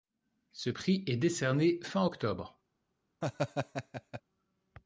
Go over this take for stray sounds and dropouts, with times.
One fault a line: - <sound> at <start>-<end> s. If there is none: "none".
- laugh at 3.2-4.2 s